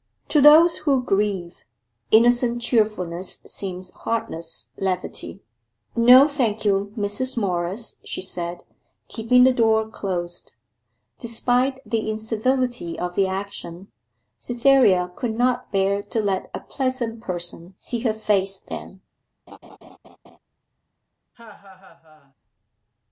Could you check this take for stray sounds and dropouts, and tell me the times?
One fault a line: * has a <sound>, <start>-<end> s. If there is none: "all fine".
* has a laugh, 19.5-20.4 s
* has a laugh, 21.3-22.3 s